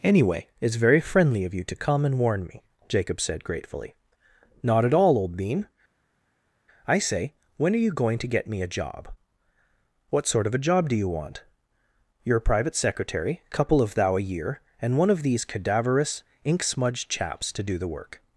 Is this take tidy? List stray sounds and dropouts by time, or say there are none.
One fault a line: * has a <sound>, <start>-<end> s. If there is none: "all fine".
all fine